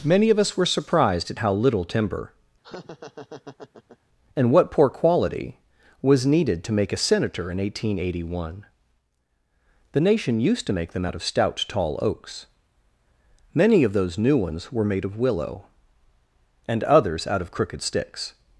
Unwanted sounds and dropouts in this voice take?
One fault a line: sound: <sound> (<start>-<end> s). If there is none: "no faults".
sound: laugh (2.6-4.0 s)